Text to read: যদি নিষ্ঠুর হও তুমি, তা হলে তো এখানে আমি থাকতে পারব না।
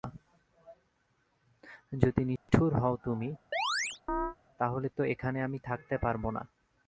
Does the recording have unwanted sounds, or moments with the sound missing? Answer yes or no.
yes